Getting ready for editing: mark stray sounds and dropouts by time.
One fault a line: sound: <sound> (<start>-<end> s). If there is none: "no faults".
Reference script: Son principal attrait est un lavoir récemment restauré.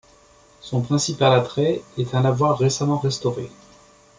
no faults